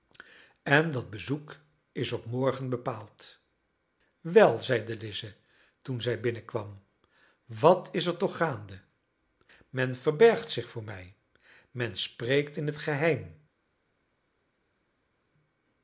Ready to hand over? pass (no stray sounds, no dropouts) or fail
pass